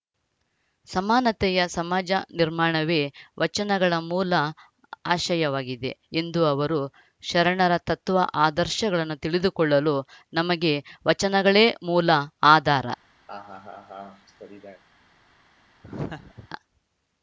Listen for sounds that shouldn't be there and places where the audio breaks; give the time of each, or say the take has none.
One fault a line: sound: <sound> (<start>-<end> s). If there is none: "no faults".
sound: laugh (13.3-14.8 s)
sound: laugh (15.8-16.5 s)